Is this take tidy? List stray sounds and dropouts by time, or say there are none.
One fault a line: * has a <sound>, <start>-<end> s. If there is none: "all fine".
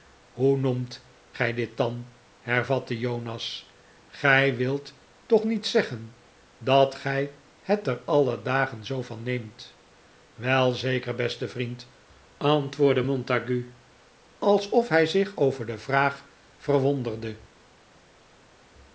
all fine